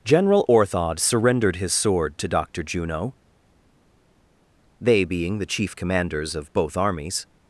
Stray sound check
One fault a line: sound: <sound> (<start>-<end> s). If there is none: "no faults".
no faults